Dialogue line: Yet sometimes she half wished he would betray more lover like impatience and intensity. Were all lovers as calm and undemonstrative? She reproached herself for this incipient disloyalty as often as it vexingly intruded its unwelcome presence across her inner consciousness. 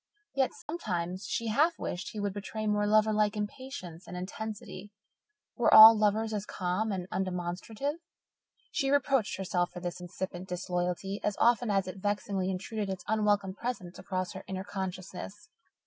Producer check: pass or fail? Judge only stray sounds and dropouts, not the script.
fail